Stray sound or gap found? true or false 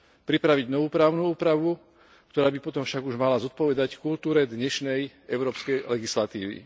false